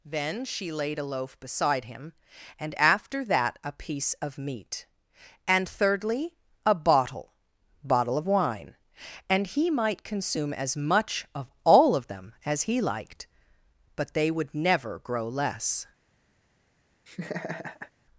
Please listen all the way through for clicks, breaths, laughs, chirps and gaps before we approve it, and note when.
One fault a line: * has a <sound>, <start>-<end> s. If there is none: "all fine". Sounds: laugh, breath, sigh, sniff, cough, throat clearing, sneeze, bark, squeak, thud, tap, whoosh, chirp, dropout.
* has a laugh, 17.1-17.9 s